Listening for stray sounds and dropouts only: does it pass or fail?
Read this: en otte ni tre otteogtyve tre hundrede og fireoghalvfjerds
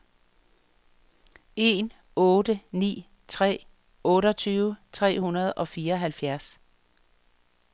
pass